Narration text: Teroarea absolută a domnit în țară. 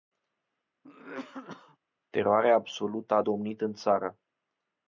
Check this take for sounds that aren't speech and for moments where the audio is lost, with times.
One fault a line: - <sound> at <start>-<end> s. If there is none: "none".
- cough at 0.8-1.8 s